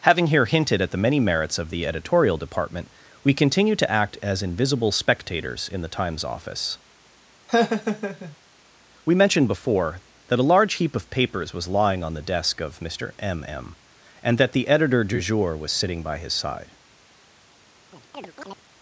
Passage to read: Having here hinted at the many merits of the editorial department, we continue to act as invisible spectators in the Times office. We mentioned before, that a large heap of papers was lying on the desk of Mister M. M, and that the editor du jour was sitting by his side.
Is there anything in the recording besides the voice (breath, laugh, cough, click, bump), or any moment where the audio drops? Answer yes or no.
yes